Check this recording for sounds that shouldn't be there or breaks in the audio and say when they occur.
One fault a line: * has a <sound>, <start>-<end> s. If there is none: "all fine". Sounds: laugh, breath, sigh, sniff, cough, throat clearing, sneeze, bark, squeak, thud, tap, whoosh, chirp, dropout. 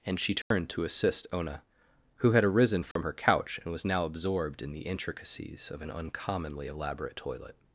* has a dropout, 0.4-0.5 s
* has a dropout, 2.9-3.0 s